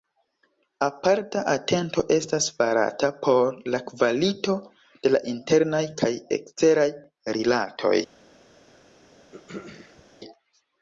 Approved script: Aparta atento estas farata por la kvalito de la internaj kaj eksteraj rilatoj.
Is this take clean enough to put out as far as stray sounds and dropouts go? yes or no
no